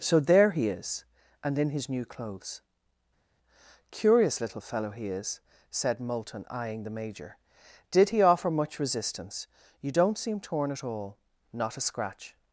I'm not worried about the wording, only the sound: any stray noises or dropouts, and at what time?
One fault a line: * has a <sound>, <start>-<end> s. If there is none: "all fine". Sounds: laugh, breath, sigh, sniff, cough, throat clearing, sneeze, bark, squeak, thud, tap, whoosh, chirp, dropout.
all fine